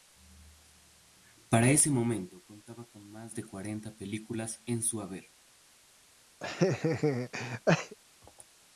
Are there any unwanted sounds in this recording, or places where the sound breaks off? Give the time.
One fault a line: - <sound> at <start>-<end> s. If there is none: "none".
- laugh at 6.4-8.0 s